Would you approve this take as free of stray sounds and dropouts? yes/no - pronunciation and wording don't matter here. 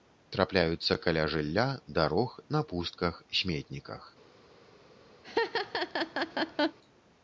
no